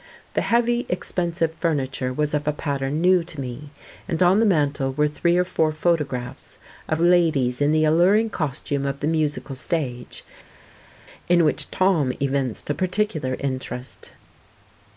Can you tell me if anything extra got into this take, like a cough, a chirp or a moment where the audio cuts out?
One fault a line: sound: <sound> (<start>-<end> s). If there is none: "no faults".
no faults